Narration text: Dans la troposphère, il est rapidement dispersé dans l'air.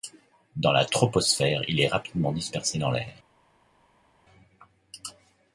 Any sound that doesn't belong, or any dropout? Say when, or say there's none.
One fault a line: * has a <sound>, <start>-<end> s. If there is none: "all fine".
all fine